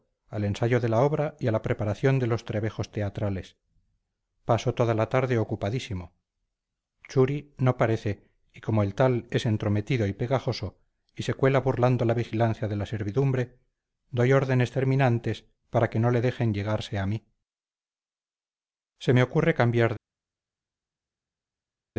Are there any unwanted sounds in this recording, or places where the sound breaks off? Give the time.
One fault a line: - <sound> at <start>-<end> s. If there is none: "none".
none